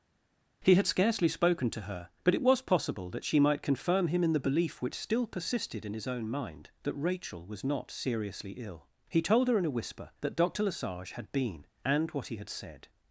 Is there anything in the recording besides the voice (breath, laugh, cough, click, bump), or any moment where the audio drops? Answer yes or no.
no